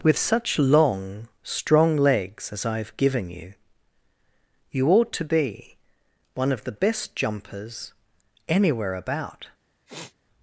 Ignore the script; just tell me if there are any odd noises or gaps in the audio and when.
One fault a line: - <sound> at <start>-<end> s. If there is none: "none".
- sniff at 9.9-10.1 s